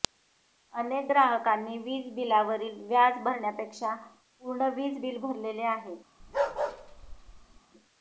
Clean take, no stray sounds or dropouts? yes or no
no